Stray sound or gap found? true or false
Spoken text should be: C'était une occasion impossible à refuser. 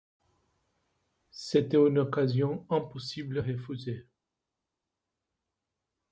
false